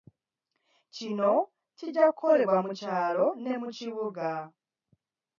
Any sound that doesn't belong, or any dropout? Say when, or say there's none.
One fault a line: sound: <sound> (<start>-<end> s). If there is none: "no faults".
no faults